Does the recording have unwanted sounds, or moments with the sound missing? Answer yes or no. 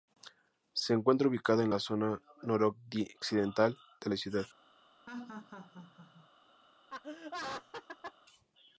yes